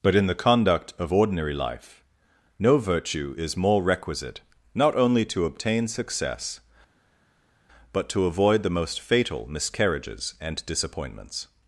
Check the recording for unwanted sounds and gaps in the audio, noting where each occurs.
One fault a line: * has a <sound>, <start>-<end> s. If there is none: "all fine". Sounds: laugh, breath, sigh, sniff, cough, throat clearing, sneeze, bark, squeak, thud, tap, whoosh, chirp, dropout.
all fine